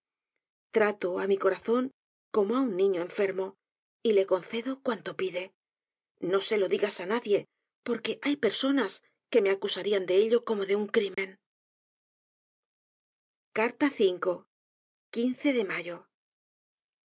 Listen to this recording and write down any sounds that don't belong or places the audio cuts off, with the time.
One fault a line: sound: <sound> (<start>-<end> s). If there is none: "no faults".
sound: dropout (11.1-11.2 s)